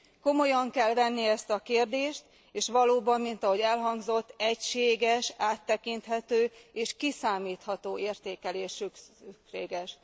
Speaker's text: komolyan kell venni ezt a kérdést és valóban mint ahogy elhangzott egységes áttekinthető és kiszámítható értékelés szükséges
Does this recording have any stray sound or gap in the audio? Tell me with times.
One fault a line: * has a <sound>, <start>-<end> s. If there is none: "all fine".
all fine